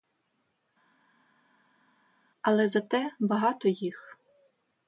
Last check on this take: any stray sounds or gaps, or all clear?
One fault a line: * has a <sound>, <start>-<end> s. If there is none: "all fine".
all fine